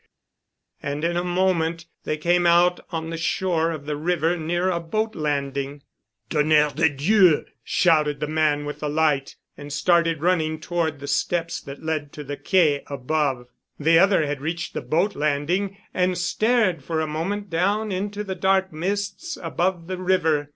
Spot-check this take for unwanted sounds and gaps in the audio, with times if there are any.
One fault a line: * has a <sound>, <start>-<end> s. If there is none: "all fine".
all fine